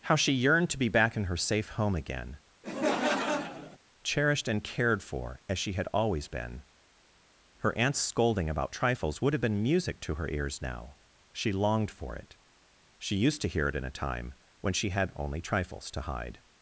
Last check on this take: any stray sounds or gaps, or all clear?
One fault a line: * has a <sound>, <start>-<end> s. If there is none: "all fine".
* has a laugh, 2.6-3.8 s